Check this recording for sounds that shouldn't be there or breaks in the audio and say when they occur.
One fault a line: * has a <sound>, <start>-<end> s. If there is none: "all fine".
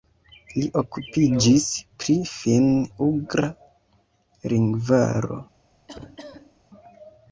* has a cough, 5.9-6.6 s